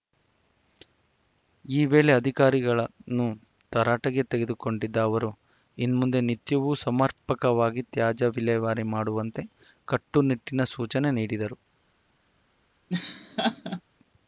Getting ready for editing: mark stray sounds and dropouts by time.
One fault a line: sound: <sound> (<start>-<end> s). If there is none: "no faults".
sound: laugh (12.9-13.8 s)